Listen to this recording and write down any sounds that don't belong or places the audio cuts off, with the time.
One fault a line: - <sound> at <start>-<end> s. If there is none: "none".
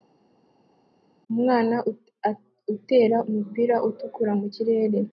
none